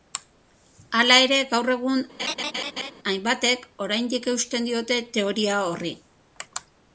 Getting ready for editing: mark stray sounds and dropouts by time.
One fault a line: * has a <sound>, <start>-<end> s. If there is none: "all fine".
* has a laugh, 2.2-2.9 s